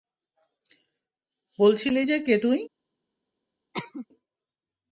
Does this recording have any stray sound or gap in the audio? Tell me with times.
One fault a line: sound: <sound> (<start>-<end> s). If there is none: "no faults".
sound: cough (3.7-4.1 s)